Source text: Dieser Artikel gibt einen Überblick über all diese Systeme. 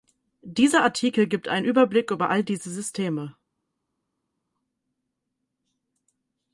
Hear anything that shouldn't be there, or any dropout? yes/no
no